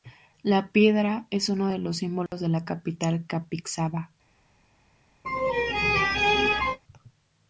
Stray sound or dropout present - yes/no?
yes